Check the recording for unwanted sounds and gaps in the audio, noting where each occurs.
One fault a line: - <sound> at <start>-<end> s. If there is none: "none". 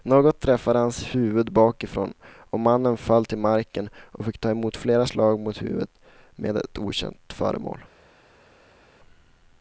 none